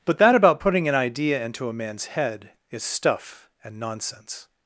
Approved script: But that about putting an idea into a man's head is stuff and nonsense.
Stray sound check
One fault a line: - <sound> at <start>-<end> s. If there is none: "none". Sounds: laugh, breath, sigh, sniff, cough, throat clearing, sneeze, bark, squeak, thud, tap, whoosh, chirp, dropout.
none